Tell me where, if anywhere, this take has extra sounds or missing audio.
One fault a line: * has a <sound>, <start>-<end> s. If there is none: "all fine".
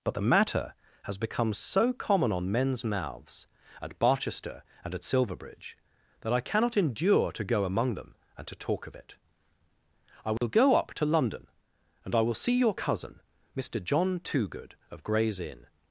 * has a dropout, 10.4-10.4 s